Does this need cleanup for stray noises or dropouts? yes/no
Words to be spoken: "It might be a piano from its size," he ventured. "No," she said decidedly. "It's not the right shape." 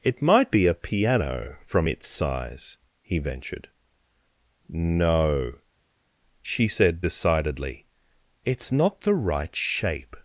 no